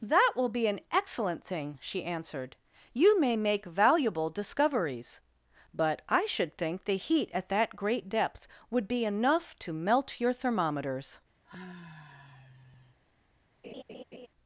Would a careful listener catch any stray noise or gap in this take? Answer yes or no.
yes